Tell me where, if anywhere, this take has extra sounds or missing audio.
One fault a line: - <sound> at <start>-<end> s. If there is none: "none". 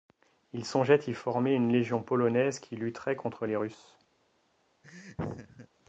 - laugh at 4.8-5.7 s